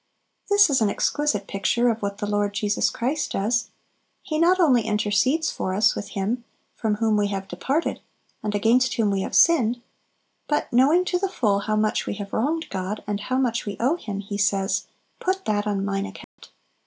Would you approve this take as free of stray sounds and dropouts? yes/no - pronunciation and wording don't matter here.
no